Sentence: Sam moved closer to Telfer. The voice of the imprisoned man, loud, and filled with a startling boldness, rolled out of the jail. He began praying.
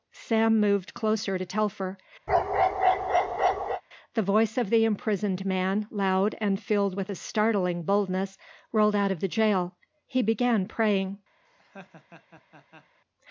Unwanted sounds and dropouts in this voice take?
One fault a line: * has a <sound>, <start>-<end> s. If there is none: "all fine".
* has a bark, 2.3-3.8 s
* has a laugh, 11.4-13.0 s